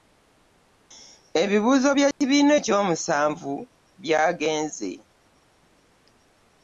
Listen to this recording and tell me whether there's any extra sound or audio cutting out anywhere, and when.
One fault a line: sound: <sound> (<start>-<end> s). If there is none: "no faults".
sound: dropout (2.1-2.2 s)